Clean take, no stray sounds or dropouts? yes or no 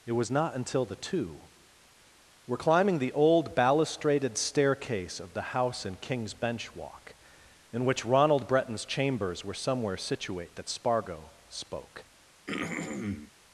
no